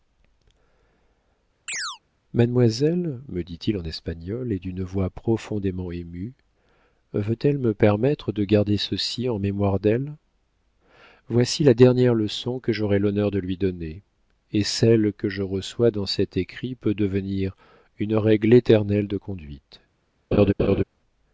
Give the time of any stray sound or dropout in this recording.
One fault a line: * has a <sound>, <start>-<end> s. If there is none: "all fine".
* has a chirp, 1.7-2.0 s
* has a laugh, 20.3-20.8 s